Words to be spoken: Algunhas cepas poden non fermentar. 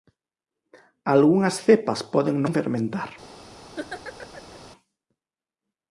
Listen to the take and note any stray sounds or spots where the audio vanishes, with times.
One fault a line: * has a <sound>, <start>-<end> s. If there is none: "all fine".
* has a laugh, 3.8-4.6 s